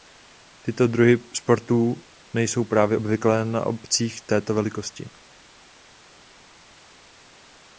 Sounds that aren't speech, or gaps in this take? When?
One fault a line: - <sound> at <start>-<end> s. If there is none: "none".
none